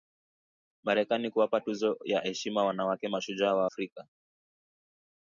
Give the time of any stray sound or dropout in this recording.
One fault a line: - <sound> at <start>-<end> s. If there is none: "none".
none